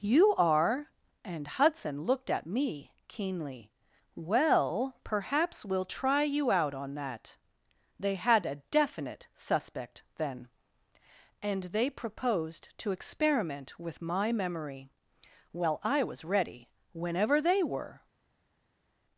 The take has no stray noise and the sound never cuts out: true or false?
true